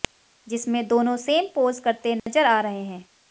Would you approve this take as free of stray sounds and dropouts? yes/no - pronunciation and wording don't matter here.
no